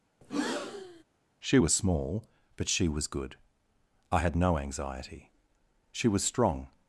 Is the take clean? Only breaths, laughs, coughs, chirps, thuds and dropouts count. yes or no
no